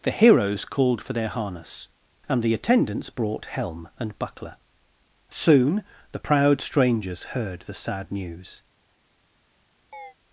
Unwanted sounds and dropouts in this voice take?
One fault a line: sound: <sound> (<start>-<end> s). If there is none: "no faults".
sound: chirp (9.9-10.1 s)